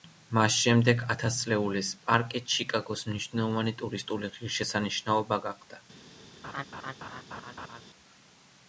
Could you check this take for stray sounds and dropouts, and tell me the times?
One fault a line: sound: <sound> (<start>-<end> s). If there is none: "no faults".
sound: laugh (6.4-7.8 s)